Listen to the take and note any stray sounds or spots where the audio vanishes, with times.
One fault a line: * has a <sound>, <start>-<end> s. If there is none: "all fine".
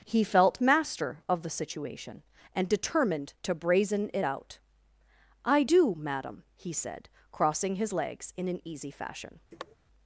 * has a sniff, 9.5-9.8 s